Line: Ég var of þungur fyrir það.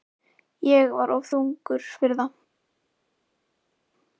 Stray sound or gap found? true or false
false